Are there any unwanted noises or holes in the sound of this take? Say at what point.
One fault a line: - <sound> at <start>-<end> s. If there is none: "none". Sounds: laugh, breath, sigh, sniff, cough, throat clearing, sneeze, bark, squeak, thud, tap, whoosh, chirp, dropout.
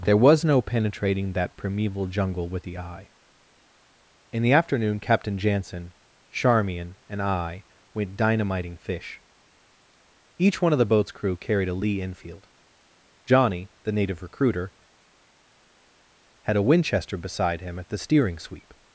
none